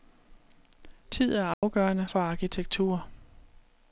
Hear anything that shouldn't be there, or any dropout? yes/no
yes